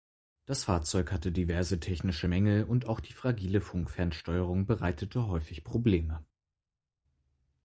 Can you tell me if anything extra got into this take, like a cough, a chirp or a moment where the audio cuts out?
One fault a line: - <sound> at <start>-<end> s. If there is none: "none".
none